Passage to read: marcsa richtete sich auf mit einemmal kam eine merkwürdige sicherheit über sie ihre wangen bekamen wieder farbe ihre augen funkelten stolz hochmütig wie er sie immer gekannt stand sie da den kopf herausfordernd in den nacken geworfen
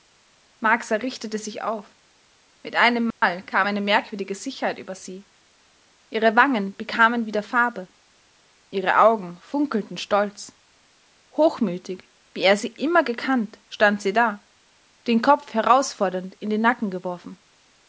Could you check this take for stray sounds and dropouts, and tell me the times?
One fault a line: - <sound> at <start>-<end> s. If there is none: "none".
- dropout at 3.1-3.2 s